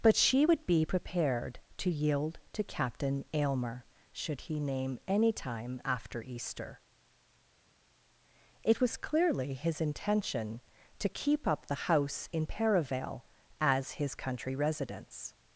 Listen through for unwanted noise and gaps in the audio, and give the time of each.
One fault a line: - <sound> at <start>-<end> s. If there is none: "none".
none